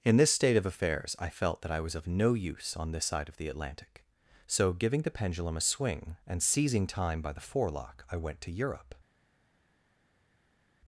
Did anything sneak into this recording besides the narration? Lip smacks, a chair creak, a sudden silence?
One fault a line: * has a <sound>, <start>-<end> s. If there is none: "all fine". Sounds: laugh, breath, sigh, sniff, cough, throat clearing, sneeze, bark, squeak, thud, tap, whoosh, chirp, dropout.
all fine